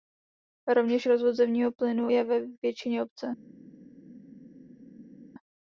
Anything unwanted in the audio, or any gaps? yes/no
no